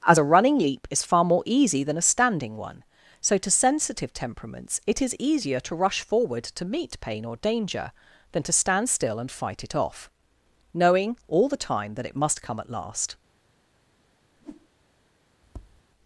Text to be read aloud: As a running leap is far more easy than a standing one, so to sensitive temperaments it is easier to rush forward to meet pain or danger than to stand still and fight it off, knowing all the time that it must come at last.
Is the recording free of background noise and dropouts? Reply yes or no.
no